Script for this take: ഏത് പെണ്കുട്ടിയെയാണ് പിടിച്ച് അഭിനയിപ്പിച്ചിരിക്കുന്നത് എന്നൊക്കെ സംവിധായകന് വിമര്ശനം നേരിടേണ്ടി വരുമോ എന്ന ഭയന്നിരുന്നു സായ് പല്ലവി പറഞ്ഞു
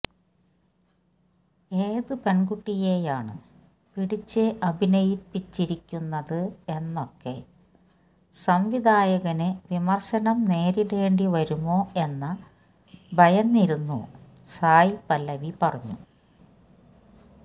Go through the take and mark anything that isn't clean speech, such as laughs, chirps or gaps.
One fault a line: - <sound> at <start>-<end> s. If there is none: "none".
none